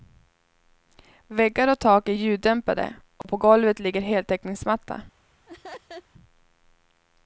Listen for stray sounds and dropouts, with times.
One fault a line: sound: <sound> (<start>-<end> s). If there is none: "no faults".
sound: dropout (3.2-3.2 s)
sound: laugh (5.5-6.1 s)